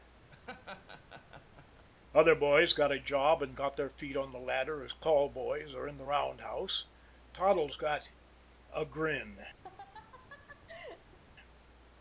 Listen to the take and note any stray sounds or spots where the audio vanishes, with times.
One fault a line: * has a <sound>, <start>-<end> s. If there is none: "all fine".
* has a laugh, 0.3-1.9 s
* has a laugh, 9.6-11.2 s